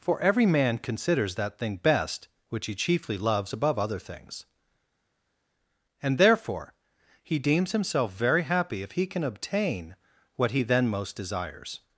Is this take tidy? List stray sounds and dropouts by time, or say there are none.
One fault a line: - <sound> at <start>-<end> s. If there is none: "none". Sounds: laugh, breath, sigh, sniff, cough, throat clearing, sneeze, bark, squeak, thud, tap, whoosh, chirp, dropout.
none